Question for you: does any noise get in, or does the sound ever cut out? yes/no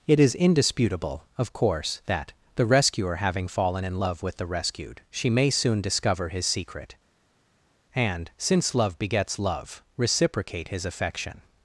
no